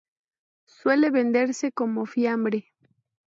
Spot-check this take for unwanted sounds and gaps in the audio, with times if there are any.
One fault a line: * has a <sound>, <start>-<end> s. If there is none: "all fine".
all fine